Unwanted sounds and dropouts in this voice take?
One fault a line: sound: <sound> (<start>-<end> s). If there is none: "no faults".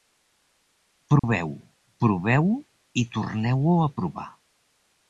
sound: dropout (1.2-1.2 s)